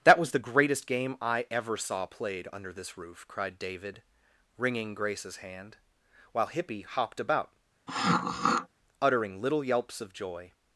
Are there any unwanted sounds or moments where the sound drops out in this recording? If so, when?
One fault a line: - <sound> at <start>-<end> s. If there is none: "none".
- throat clearing at 7.9-8.7 s